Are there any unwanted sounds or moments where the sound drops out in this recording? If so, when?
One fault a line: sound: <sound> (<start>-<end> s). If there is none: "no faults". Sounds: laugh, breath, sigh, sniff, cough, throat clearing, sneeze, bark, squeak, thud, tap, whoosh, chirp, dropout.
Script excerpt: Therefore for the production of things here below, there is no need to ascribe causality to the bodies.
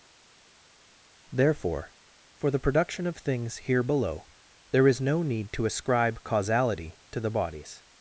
no faults